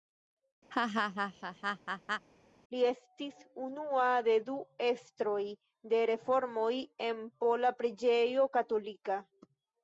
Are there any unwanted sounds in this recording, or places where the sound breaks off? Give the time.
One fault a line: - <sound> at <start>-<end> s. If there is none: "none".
- laugh at 0.7-2.3 s